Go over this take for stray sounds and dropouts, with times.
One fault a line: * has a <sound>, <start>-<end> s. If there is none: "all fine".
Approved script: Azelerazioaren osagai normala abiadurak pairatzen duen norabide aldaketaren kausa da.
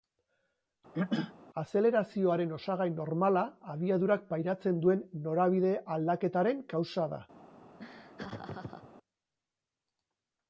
* has a throat clearing, 0.9-1.3 s
* has a laugh, 7.8-8.9 s